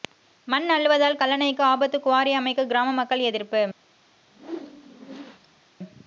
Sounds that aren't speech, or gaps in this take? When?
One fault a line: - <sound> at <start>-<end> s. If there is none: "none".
- whoosh at 4.2-5.6 s